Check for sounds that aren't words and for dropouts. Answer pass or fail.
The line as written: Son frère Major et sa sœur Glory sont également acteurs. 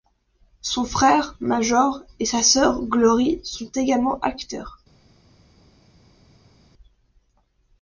pass